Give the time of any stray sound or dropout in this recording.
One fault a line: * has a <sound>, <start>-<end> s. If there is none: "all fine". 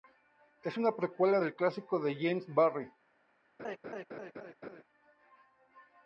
* has a laugh, 3.6-4.8 s